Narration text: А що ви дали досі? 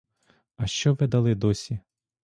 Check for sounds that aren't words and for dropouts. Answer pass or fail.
pass